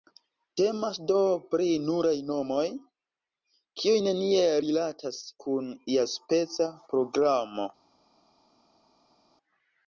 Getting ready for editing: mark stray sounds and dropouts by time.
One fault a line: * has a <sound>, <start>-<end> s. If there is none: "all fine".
all fine